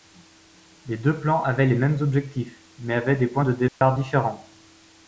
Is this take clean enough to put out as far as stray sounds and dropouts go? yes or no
no